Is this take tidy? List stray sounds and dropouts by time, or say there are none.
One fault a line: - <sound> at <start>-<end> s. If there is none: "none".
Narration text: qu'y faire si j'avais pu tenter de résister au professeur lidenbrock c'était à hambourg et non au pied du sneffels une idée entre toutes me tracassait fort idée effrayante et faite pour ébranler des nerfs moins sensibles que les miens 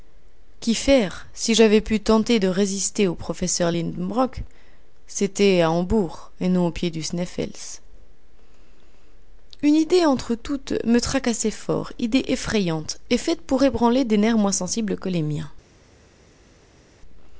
none